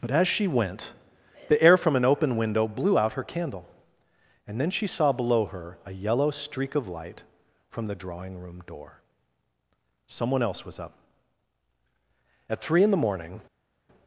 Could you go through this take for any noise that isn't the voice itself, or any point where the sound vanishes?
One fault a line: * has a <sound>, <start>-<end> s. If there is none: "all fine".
all fine